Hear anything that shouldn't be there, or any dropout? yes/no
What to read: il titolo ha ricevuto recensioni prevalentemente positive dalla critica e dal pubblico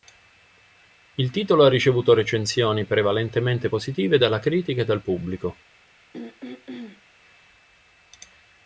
yes